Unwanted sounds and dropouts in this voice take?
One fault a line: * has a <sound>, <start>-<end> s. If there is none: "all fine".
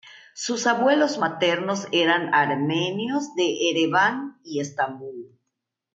all fine